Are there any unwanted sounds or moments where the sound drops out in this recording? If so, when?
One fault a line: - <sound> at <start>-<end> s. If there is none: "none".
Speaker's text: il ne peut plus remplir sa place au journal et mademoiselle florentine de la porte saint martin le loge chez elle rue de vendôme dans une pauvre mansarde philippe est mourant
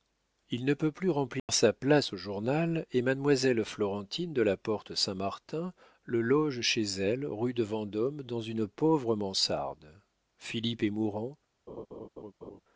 - dropout at 1.4-1.5 s
- laugh at 11.7-12.6 s